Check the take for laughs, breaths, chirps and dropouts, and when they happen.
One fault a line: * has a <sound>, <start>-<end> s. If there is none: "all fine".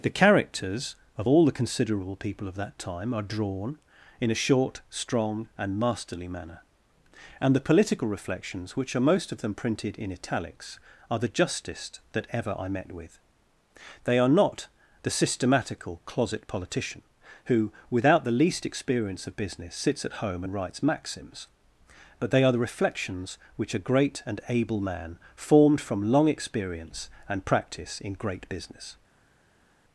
all fine